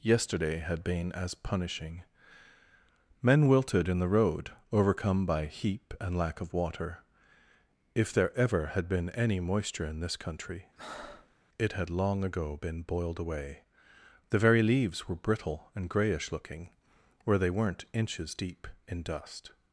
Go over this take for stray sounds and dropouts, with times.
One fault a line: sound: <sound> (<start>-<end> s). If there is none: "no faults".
sound: breath (10.8-11.3 s)